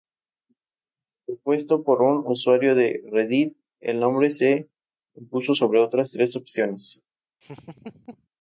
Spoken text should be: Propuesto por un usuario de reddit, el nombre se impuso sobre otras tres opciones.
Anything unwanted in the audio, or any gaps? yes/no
yes